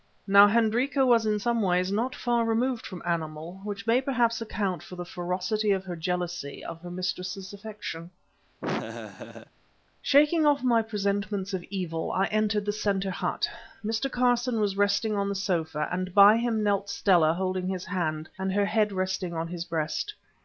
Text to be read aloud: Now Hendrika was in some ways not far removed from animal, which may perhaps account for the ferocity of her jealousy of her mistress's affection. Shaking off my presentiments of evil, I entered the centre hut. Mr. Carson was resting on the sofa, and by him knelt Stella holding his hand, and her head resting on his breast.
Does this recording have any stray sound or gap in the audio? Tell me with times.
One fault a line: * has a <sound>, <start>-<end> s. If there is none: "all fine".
* has a laugh, 8.6-9.5 s